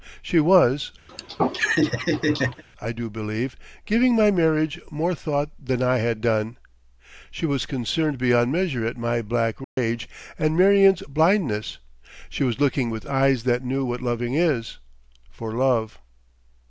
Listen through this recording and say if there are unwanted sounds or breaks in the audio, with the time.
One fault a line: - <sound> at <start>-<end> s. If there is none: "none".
- laugh at 1.1-2.6 s
- dropout at 9.6-9.8 s